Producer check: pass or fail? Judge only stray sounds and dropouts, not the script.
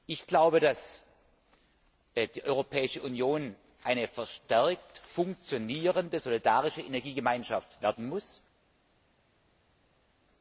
pass